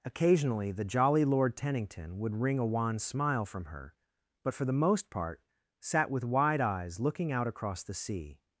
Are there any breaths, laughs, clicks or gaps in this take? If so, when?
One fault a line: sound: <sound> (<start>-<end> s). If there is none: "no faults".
no faults